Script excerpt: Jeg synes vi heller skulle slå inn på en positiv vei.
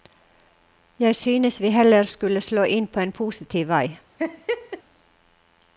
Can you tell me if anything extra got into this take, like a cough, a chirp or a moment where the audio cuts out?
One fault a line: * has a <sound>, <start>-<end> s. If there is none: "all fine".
* has a laugh, 4.2-4.8 s